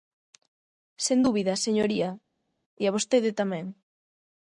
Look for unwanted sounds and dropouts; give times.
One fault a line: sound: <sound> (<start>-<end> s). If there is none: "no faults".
no faults